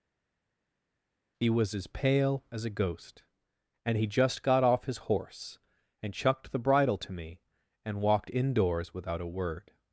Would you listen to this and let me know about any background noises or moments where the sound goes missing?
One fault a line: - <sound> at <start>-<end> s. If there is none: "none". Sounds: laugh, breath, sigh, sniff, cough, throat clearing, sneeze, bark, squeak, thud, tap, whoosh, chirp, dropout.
none